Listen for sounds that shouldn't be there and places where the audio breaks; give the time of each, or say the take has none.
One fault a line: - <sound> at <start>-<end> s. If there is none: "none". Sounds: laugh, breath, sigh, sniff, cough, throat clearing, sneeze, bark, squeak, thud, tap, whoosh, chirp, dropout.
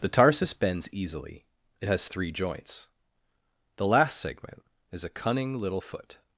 none